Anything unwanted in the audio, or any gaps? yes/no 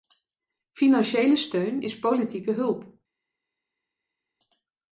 no